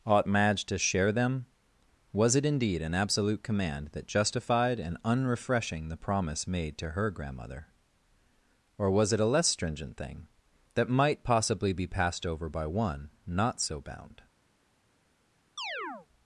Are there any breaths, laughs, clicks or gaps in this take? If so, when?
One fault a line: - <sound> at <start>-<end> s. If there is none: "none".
- chirp at 15.6-16.1 s